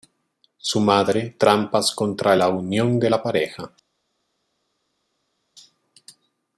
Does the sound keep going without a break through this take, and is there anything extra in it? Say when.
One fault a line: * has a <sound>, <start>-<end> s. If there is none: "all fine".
all fine